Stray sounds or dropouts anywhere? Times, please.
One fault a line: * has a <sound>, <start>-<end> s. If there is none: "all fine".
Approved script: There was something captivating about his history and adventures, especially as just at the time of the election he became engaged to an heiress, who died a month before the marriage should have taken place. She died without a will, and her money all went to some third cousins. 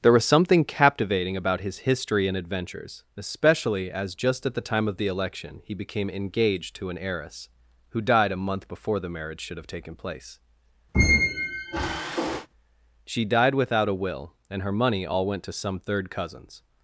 * has a squeak, 10.9-12.5 s